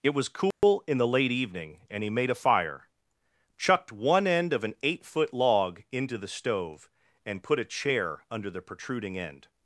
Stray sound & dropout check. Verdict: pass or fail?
fail